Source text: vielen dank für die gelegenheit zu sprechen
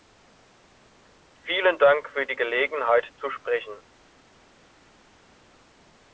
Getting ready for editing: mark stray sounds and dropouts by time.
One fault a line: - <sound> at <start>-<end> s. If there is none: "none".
none